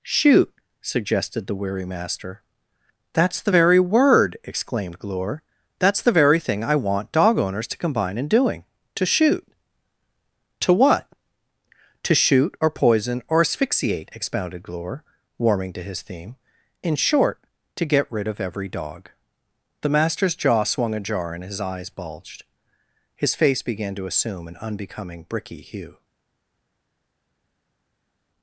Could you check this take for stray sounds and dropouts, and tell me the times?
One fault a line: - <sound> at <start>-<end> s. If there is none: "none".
none